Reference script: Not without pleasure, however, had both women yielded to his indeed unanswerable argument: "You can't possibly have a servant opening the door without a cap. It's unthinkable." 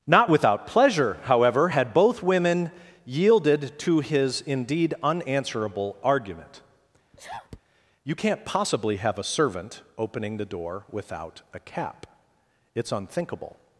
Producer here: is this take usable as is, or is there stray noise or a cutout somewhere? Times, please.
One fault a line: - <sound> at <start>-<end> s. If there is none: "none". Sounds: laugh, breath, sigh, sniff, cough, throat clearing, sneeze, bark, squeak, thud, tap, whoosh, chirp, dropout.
- sneeze at 7.1-7.6 s